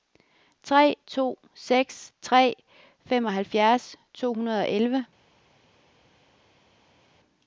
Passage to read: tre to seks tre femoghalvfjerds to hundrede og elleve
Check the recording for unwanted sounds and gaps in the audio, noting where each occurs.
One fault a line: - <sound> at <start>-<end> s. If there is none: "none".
none